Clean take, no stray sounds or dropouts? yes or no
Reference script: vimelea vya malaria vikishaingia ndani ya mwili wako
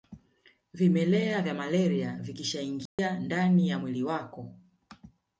no